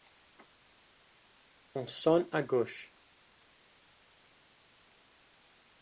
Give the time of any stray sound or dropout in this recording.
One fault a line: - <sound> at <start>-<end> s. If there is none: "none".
none